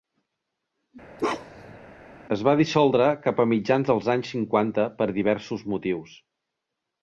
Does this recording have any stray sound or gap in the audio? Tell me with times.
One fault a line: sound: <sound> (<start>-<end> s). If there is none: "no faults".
sound: bark (1.2-1.8 s)